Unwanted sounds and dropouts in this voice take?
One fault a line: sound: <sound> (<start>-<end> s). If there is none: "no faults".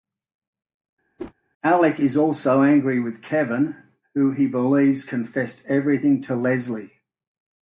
sound: whoosh (1.2-1.3 s)